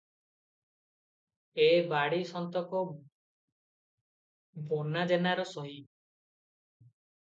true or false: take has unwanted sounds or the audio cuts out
false